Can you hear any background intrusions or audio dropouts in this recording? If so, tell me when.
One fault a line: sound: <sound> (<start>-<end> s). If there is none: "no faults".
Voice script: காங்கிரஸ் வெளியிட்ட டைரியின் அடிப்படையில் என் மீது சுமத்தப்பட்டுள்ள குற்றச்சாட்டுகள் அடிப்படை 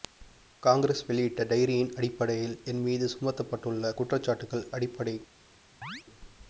sound: chirp (5.8-6.0 s)